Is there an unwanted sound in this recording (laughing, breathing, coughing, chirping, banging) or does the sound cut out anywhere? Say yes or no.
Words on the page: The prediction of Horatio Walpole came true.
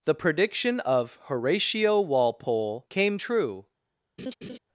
yes